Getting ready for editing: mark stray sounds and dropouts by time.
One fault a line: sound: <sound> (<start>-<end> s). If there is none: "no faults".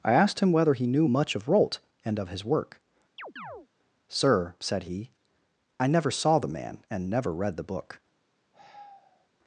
sound: chirp (3.2-3.7 s)
sound: sigh (8.5-9.3 s)